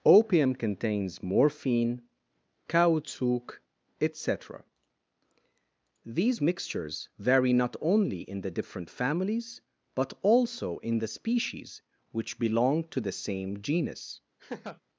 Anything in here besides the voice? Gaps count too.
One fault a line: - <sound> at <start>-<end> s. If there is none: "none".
- laugh at 14.4-14.8 s